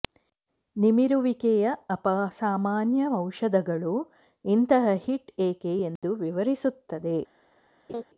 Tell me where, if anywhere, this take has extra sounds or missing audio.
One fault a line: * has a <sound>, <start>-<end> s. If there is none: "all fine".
* has a dropout, 6.0-6.0 s
* has a laugh, 7.9-8.0 s